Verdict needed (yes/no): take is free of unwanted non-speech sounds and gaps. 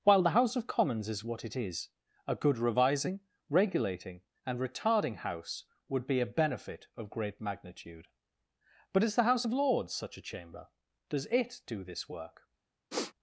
no